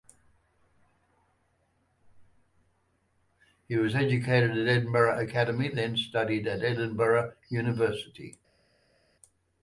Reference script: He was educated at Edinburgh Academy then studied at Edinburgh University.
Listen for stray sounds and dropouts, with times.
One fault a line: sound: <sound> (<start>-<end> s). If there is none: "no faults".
no faults